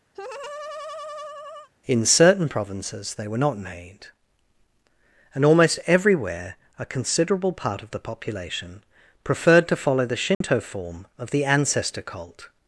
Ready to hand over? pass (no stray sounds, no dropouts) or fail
fail